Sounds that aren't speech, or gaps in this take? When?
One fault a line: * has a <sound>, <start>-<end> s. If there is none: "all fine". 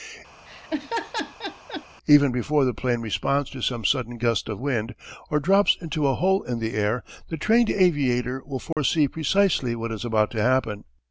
* has a laugh, 0.5-1.9 s
* has a dropout, 8.7-8.8 s